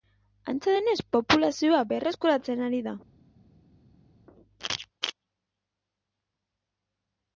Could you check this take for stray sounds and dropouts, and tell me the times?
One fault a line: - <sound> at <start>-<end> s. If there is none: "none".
none